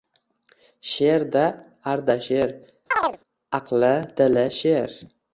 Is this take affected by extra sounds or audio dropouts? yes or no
yes